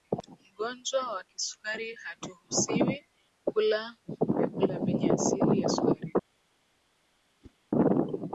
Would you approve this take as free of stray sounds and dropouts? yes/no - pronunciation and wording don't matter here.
no